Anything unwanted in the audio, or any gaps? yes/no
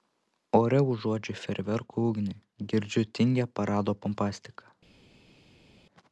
no